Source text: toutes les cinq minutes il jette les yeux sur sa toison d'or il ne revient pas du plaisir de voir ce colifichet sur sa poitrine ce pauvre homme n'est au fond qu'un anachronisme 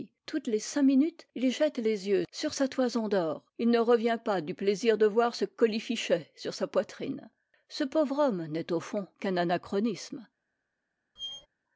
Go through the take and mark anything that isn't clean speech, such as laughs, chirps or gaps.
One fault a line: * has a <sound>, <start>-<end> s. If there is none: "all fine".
* has a squeak, 11.2-11.5 s